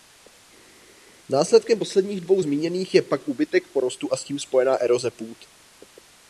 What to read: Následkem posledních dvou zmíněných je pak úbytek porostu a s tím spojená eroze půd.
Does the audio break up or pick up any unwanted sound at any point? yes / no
no